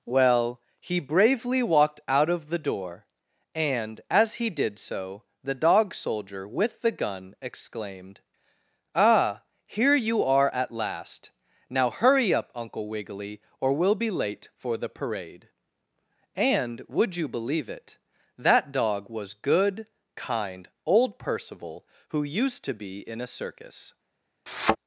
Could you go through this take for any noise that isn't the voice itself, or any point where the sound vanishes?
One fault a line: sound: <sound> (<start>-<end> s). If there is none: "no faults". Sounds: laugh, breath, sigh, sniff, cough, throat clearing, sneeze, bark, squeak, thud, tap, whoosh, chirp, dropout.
sound: thud (24.5-24.8 s)